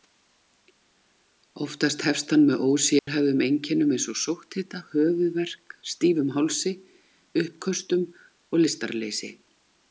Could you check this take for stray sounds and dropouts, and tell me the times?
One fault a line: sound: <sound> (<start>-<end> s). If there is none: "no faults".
sound: dropout (3.0-3.1 s)